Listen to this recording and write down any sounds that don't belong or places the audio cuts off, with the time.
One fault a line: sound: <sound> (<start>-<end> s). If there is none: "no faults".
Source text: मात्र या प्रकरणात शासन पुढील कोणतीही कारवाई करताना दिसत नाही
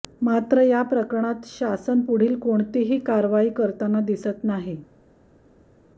no faults